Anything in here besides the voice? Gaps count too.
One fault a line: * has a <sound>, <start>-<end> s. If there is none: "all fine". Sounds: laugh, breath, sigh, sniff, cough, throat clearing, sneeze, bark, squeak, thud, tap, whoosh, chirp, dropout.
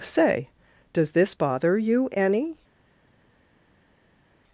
all fine